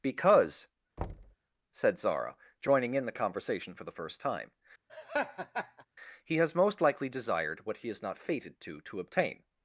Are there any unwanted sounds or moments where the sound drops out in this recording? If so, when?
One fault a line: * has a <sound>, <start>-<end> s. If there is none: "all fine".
* has a thud, 1.0-1.4 s
* has a laugh, 4.9-5.9 s